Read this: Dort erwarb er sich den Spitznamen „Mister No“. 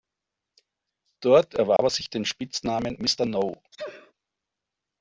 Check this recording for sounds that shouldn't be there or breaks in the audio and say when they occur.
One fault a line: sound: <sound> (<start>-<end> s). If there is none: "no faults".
sound: dropout (1.8-1.8 s)
sound: sneeze (3.7-4.1 s)